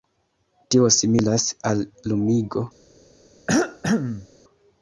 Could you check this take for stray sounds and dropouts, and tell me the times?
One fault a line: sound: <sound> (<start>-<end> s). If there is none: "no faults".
sound: cough (3.5-4.3 s)